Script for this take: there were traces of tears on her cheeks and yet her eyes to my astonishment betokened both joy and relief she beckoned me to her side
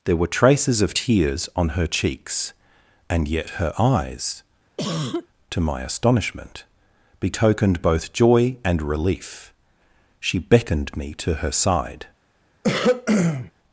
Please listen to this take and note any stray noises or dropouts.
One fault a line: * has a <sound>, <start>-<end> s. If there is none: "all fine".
* has a cough, 4.8-5.3 s
* has a throat clearing, 12.6-13.5 s